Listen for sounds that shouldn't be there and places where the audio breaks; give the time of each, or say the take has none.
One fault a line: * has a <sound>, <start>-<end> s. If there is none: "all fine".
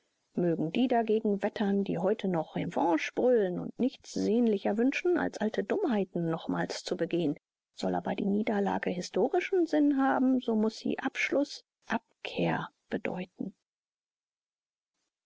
all fine